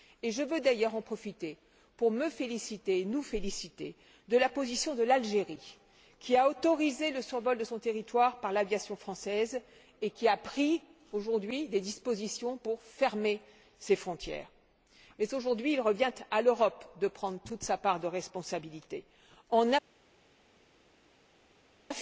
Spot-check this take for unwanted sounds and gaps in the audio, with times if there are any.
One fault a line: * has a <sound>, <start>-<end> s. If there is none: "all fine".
all fine